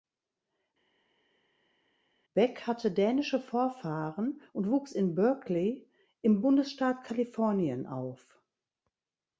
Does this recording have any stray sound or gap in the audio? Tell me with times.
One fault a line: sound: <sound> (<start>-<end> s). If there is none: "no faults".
no faults